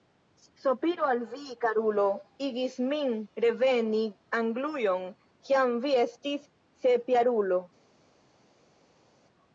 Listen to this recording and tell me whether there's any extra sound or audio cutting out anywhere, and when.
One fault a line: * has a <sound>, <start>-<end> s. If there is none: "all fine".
all fine